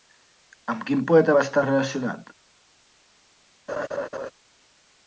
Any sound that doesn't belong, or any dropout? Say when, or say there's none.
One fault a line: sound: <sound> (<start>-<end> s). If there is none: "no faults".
sound: laugh (3.7-4.3 s)